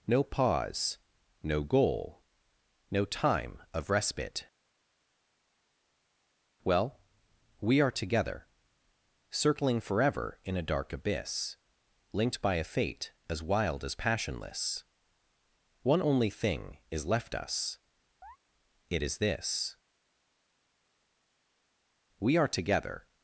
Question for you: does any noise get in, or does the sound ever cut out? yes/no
yes